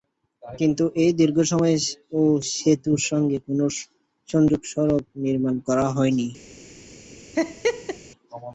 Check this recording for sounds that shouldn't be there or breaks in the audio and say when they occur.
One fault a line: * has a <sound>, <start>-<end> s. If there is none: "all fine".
* has a laugh, 7.3-8.0 s